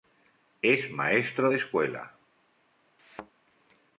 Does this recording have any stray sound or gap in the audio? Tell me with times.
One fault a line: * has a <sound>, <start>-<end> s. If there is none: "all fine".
* has a thud, 3.0-3.3 s